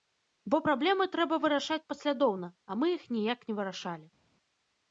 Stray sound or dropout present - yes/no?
no